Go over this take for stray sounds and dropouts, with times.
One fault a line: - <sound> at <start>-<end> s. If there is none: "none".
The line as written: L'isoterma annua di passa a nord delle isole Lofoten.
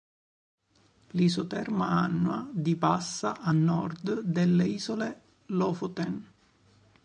none